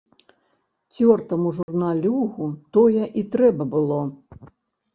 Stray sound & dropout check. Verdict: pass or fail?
fail